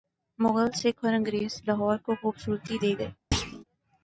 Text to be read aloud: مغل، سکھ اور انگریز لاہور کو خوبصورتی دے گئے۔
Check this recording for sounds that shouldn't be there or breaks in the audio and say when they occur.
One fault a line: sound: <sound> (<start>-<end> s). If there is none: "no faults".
sound: thud (3.3-3.6 s)